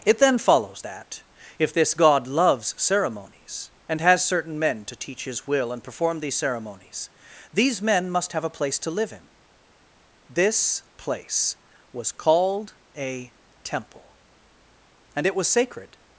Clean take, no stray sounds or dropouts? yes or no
yes